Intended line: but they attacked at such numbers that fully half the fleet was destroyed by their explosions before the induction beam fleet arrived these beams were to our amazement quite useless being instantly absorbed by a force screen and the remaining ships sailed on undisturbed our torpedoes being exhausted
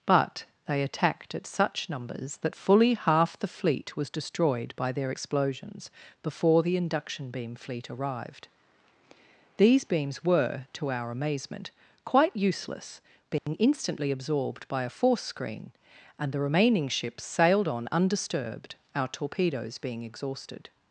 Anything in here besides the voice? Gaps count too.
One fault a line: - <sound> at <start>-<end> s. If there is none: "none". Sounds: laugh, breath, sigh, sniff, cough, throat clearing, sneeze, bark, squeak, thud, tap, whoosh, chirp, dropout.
- dropout at 13.4-13.5 s